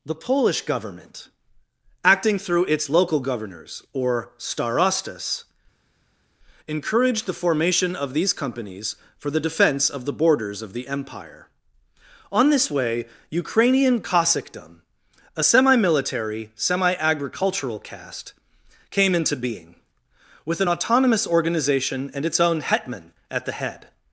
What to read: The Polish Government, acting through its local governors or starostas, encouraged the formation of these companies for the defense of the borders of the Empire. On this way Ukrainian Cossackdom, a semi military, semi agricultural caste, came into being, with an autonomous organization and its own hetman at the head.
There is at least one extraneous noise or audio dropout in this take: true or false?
false